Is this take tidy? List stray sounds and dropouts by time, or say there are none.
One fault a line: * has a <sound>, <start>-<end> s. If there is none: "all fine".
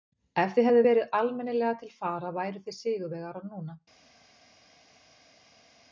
all fine